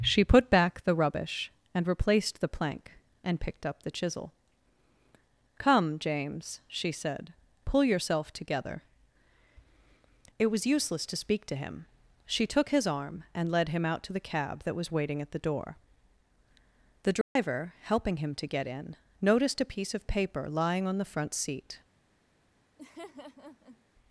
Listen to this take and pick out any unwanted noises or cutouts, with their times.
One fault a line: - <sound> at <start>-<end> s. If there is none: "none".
- dropout at 17.2-17.4 s
- laugh at 22.8-23.8 s